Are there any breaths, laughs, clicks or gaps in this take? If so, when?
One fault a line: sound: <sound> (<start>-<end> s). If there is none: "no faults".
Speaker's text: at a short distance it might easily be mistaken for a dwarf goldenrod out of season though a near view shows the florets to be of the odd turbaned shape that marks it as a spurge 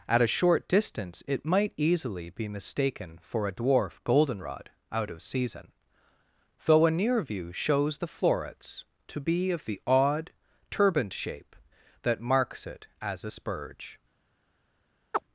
sound: chirp (15.1-15.2 s)